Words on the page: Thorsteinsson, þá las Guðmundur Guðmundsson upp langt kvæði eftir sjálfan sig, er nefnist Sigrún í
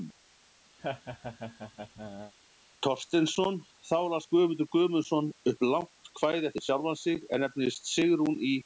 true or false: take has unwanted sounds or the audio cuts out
true